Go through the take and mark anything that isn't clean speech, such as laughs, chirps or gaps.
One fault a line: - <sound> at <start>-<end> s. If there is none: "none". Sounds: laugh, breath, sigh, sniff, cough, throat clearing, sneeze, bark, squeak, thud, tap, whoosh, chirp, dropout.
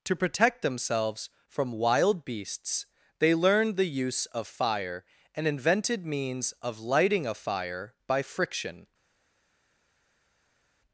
none